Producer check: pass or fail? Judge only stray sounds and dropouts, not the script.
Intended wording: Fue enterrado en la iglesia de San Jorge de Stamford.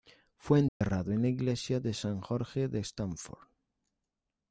fail